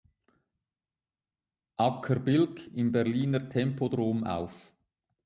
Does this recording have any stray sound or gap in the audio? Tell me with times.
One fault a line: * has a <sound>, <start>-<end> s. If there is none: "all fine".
all fine